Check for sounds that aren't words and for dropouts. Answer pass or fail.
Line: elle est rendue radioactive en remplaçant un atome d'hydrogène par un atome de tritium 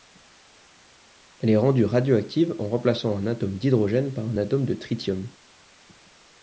pass